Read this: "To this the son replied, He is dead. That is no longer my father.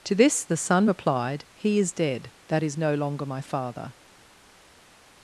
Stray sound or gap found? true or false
false